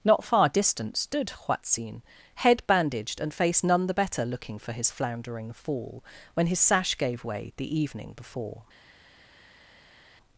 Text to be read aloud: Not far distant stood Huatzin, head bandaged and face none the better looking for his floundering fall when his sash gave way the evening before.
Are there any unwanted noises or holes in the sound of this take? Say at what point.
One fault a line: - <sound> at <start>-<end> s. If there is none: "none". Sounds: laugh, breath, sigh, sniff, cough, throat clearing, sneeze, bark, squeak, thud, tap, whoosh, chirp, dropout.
none